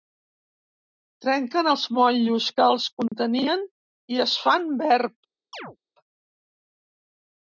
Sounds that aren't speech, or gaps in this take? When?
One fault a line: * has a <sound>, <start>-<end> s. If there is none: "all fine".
* has a dropout, 3.1-3.1 s
* has a chirp, 5.5-5.8 s